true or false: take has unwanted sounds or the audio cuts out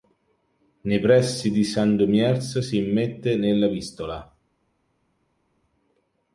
false